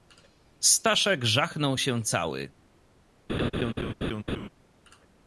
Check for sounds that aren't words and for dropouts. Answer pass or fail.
fail